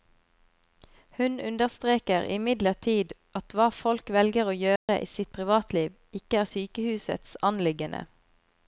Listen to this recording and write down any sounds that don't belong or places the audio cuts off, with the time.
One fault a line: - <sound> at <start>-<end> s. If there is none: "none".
- dropout at 4.8-4.9 s